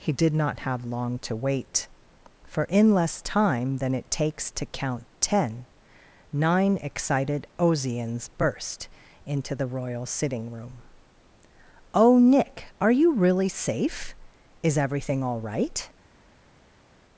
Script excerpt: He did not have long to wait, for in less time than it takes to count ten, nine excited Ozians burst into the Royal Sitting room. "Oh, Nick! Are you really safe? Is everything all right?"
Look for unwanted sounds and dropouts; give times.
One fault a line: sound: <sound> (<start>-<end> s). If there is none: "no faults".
no faults